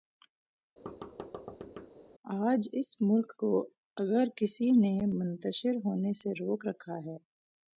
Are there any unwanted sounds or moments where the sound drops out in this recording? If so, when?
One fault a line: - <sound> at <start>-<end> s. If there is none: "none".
- thud at 0.9-1.9 s